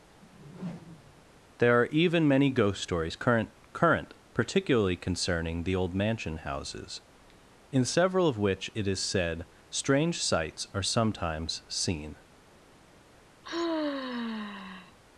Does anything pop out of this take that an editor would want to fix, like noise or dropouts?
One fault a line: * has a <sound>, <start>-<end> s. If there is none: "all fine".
* has a whoosh, 0.2-1.3 s
* has a sigh, 13.4-15.0 s